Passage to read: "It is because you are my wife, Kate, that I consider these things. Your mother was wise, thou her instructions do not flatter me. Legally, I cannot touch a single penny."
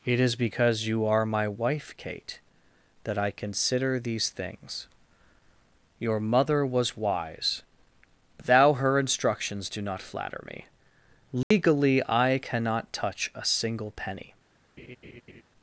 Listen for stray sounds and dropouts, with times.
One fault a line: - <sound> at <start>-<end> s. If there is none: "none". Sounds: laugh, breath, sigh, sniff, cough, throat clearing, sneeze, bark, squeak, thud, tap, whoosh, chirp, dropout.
- dropout at 11.4-11.5 s
- laugh at 14.8-15.4 s